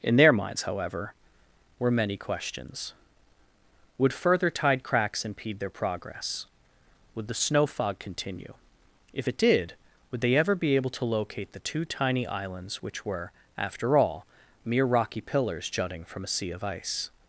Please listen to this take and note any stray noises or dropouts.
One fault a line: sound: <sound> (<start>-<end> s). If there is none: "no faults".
no faults